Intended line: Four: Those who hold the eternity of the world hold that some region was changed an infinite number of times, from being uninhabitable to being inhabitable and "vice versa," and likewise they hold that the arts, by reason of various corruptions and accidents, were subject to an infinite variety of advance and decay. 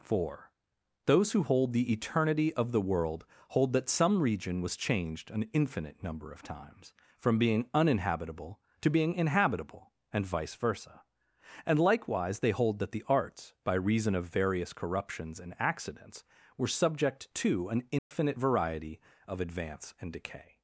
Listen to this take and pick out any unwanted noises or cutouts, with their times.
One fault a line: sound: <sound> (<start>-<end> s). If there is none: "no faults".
sound: dropout (18.0-18.1 s)